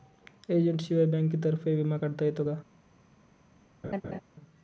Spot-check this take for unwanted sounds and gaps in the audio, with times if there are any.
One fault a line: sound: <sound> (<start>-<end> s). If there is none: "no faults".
sound: laugh (3.8-4.2 s)